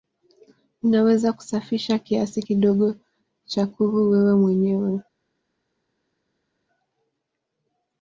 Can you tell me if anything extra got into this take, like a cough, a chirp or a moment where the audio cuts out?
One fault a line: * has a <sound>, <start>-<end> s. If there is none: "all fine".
all fine